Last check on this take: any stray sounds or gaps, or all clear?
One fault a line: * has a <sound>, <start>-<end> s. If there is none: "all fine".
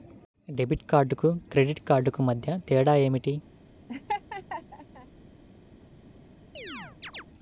* has a laugh, 3.9-5.1 s
* has a chirp, 6.5-7.2 s